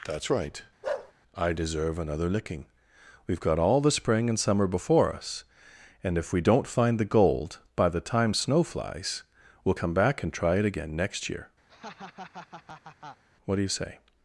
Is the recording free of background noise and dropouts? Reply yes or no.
no